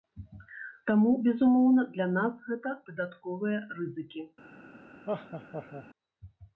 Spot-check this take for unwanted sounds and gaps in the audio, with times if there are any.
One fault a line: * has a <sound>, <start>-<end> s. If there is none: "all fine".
* has a laugh, 5.1-5.9 s